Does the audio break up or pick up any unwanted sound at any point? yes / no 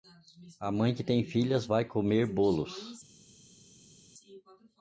no